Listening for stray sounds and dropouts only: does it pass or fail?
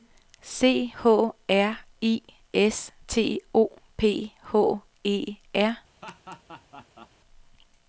fail